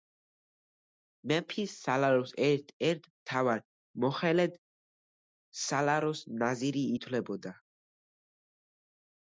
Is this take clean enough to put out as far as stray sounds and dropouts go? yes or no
yes